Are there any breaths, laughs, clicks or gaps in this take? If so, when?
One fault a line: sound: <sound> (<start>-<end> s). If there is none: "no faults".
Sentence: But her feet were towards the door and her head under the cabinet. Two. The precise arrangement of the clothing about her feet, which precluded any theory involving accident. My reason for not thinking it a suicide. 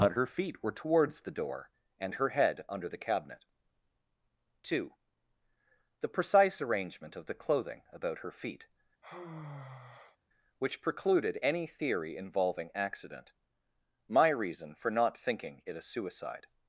sound: sigh (9.0-10.2 s)